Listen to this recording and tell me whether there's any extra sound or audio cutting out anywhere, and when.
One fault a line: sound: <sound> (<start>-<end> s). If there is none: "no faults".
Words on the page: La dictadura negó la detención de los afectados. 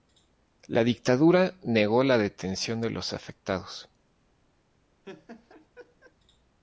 sound: laugh (5.0-6.1 s)